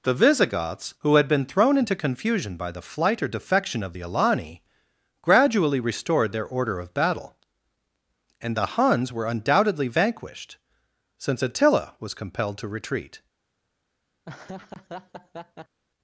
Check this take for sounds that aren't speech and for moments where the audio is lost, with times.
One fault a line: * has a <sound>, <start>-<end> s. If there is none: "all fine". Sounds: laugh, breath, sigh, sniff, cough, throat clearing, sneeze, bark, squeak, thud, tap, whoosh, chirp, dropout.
* has a laugh, 14.2-15.8 s